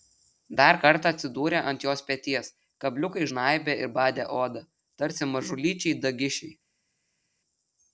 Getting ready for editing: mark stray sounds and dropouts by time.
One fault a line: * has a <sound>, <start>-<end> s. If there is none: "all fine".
all fine